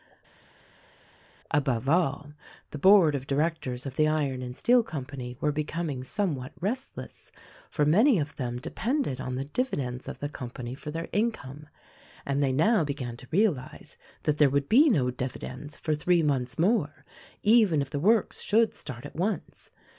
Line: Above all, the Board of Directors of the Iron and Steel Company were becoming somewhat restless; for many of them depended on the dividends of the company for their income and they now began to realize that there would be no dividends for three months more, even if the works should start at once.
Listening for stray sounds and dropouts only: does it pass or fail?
pass